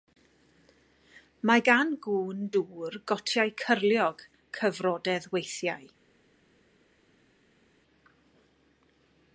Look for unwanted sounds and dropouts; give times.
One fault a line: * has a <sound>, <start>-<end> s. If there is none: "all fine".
all fine